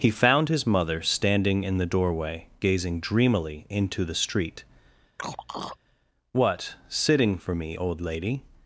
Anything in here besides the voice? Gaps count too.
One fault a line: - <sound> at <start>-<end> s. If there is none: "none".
- throat clearing at 5.2-5.8 s